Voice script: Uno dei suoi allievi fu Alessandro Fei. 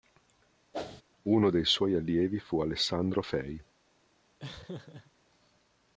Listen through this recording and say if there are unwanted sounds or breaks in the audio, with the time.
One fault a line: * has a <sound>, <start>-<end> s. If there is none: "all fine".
* has a whoosh, 0.7-1.0 s
* has a laugh, 4.4-5.1 s